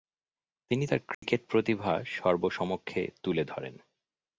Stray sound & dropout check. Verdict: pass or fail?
fail